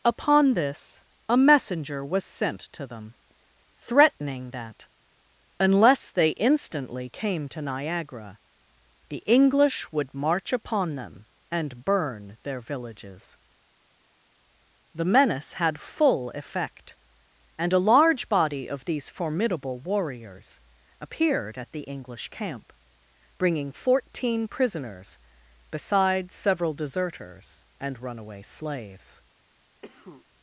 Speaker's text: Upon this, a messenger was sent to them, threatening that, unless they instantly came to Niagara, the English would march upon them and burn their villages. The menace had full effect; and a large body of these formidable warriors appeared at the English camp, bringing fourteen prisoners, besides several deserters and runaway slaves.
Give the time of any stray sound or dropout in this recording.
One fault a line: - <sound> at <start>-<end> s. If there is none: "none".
- cough at 29.8-30.3 s